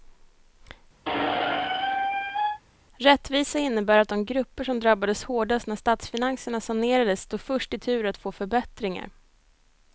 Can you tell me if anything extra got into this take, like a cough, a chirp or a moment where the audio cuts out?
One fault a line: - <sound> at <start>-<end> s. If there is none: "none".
- squeak at 1.1-2.6 s